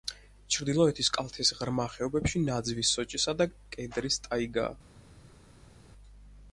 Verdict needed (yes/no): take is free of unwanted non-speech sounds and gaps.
yes